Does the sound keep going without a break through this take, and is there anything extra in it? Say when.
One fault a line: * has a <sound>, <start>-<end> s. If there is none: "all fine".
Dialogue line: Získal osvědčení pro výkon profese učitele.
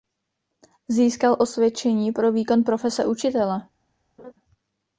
* has a laugh, 4.2-4.3 s